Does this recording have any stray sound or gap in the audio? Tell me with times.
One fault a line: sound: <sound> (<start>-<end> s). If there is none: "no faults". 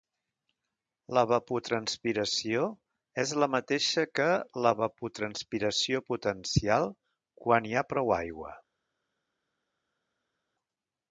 no faults